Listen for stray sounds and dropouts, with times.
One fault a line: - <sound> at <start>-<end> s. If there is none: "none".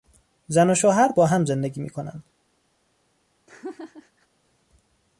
- laugh at 3.5-4.3 s